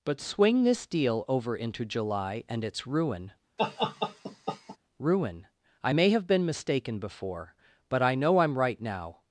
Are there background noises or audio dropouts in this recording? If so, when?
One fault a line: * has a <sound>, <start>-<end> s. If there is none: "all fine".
* has a laugh, 3.6-4.8 s